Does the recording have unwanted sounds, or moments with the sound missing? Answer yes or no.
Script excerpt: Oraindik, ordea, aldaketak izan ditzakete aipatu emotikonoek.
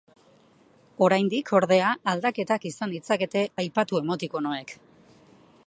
no